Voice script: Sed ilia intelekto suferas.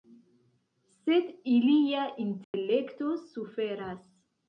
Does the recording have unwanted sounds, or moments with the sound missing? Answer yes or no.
yes